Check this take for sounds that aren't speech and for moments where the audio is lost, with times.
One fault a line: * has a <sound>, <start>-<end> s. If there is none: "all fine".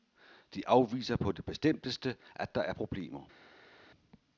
all fine